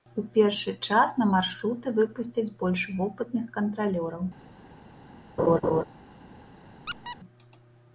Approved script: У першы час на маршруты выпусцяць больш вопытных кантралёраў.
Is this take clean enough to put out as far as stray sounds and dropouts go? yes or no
no